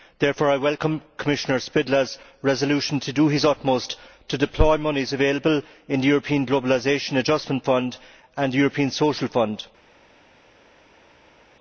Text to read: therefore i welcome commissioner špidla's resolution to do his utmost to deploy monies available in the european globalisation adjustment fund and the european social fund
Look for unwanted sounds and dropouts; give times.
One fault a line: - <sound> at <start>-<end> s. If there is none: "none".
none